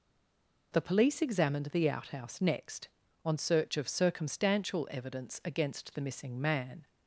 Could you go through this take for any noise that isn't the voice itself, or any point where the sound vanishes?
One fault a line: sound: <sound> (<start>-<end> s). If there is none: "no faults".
no faults